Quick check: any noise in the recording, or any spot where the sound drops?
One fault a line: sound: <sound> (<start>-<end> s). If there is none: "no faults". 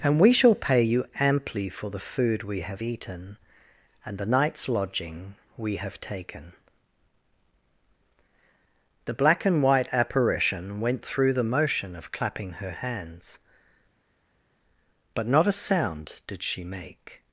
no faults